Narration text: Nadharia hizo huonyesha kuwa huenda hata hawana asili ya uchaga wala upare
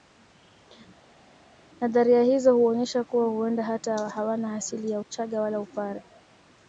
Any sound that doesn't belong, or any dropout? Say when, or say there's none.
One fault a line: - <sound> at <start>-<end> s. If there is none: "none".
none